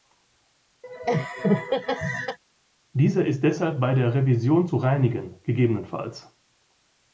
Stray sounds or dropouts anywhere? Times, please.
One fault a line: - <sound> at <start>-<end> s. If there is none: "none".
- laugh at 0.8-2.4 s